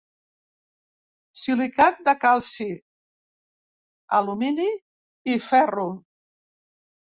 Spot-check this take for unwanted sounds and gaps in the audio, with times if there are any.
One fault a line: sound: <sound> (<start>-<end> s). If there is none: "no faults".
no faults